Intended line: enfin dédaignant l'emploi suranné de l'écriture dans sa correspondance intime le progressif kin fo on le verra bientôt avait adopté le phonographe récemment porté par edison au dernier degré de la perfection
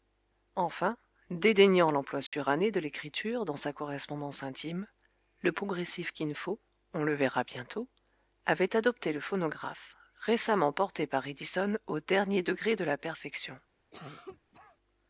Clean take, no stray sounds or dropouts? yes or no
no